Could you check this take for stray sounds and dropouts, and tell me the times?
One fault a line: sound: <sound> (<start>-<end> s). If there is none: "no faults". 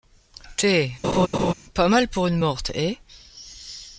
sound: laugh (1.0-1.5 s)